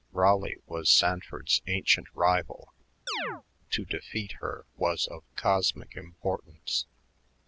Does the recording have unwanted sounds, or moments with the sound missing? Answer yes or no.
yes